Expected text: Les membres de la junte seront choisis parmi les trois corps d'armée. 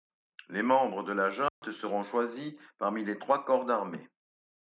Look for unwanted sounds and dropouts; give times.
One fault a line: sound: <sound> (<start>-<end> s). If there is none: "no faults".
sound: dropout (1.5-1.6 s)